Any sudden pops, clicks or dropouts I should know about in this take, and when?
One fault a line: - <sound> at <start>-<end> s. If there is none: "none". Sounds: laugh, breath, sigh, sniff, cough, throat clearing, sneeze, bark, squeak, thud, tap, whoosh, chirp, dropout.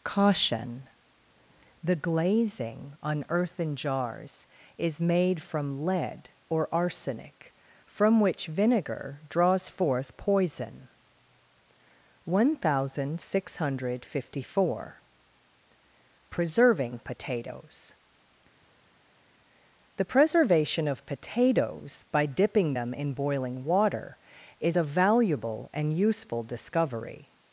none